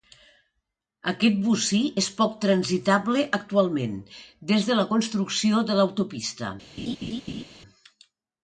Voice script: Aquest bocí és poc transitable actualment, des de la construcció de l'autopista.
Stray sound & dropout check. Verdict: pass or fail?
fail